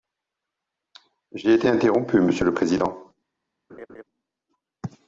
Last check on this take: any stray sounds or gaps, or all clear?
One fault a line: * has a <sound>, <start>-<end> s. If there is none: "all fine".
* has a laugh, 3.7-4.0 s